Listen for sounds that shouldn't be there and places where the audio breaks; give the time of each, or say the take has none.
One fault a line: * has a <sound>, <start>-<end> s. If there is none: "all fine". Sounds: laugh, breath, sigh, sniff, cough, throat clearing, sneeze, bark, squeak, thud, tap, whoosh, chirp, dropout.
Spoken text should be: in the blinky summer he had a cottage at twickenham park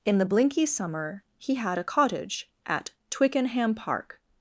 all fine